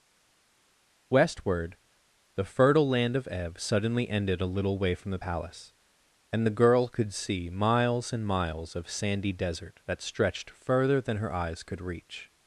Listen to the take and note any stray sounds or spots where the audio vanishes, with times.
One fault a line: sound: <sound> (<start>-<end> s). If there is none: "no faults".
no faults